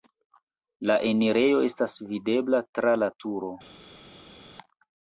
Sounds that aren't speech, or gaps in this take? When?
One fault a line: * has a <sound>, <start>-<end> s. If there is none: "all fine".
all fine